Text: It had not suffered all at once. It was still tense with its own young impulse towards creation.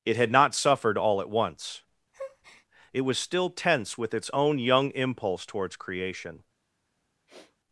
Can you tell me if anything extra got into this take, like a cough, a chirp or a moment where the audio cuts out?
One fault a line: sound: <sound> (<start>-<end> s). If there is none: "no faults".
sound: breath (2.1-2.7 s)
sound: sniff (7.3-7.6 s)